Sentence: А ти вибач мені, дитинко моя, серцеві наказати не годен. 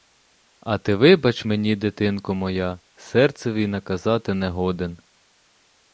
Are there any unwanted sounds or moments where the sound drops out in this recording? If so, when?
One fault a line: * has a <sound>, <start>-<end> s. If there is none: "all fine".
all fine